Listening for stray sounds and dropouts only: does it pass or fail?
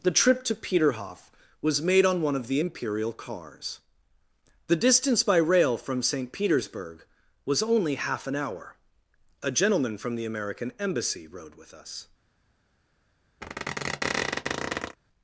fail